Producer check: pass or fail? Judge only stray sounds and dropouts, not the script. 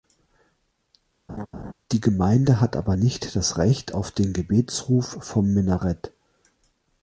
fail